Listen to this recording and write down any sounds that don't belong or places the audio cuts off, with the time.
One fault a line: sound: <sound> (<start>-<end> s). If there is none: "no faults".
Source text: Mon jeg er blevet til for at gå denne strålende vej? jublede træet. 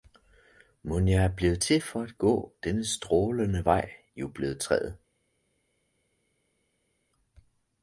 no faults